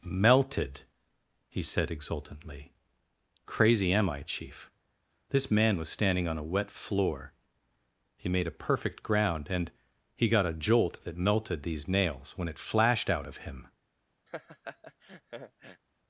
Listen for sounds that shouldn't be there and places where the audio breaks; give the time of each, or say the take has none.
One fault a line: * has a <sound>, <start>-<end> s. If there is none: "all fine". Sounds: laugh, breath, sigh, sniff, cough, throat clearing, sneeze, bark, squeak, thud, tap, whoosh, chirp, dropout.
* has a laugh, 14.3-15.8 s